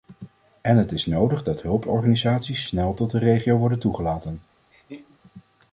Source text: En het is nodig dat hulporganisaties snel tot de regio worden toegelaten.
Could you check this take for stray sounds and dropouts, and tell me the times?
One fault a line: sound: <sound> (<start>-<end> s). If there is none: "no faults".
sound: laugh (4.7-5.2 s)